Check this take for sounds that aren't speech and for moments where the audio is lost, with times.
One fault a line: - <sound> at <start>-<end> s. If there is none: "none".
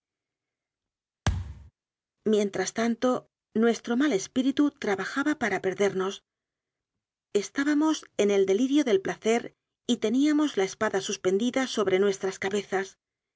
- thud at 1.3-1.7 s